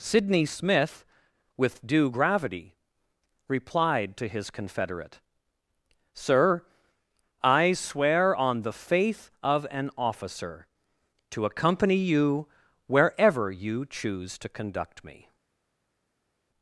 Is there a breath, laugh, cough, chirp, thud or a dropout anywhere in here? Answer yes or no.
no